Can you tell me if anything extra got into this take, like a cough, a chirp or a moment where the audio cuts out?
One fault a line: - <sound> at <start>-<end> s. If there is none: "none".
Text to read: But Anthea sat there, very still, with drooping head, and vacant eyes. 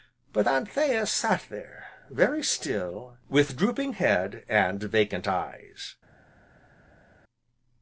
none